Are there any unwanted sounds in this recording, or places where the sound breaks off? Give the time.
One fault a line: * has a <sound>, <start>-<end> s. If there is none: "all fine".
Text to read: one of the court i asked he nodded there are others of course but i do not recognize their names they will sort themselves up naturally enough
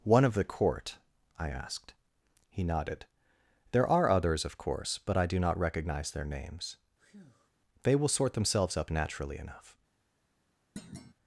* has a breath, 7.0-7.5 s
* has a thud, 10.8-11.1 s